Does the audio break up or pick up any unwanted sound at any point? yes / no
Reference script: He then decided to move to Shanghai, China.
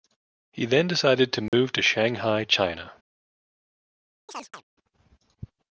yes